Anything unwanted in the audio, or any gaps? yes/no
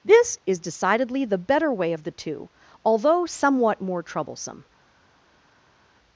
no